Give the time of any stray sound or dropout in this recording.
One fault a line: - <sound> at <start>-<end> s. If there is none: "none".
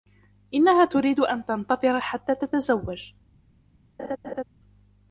- laugh at 4.0-4.4 s